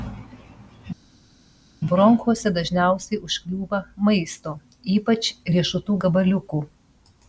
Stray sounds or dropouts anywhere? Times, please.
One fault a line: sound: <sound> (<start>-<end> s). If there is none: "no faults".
no faults